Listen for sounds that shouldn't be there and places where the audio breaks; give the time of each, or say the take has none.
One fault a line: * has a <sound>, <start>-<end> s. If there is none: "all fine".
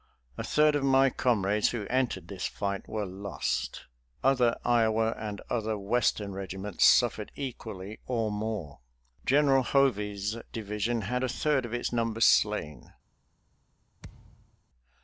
* has a thud, 14.0-14.6 s